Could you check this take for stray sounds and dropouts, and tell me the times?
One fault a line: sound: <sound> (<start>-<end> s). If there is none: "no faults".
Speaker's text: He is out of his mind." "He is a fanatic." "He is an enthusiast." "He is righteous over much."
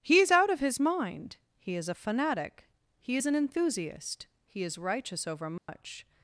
sound: dropout (5.6-5.7 s)